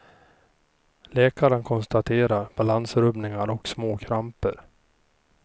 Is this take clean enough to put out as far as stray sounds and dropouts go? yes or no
yes